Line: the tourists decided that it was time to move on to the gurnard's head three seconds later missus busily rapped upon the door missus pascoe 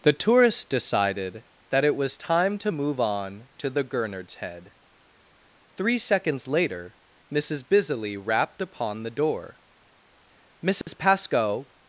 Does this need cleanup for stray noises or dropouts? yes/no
yes